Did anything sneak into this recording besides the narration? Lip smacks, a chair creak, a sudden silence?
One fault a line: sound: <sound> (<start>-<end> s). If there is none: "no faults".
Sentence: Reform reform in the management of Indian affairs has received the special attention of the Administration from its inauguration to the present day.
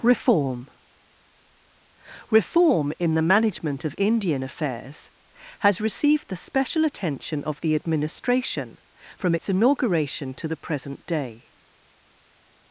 no faults